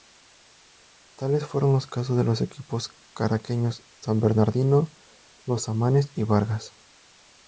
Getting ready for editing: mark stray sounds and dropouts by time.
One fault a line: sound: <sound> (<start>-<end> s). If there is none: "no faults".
no faults